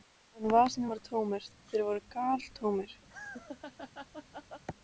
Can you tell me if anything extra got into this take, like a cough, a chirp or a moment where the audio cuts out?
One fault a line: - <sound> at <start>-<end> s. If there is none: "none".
- laugh at 3.1-4.6 s